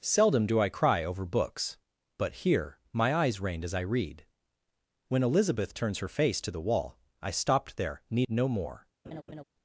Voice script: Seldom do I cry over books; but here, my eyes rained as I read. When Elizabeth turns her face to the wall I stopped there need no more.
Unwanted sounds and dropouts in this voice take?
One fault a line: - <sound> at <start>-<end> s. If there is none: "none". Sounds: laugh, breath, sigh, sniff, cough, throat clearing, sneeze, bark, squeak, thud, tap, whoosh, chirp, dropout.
- laugh at 9.0-9.4 s